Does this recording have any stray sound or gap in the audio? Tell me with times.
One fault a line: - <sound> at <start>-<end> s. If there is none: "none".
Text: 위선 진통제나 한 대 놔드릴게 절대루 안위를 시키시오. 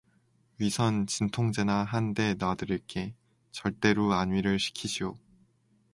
none